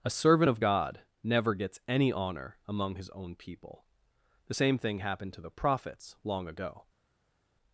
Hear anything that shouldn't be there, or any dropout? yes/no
no